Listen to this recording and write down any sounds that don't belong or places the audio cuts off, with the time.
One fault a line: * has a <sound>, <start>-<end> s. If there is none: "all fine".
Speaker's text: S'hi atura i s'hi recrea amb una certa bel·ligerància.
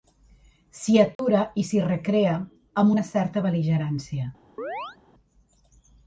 * has a dropout, 1.2-1.2 s
* has a chirp, 4.6-5.0 s